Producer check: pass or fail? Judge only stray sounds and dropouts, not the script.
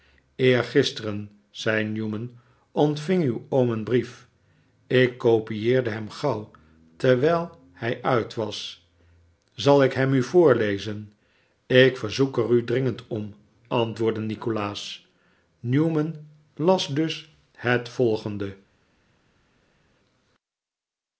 pass